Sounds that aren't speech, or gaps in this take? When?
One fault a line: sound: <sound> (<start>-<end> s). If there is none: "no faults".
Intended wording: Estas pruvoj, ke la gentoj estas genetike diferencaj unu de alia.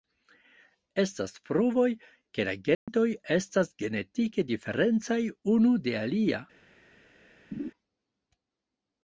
sound: dropout (2.7-2.9 s)
sound: laugh (7.5-7.7 s)